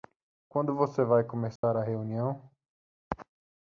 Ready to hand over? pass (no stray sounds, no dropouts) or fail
fail